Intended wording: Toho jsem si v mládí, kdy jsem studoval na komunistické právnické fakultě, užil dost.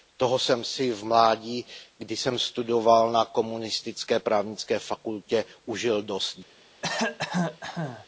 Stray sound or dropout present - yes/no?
yes